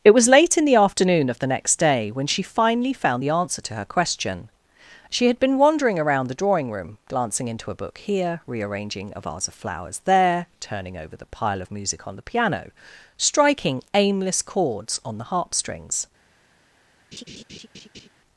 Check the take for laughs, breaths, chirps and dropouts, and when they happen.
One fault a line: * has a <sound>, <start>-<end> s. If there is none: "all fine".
* has a laugh, 17.1-18.1 s